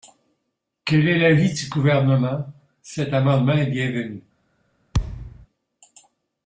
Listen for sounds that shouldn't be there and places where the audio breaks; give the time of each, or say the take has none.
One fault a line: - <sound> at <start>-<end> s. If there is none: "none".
- thud at 4.9-5.5 s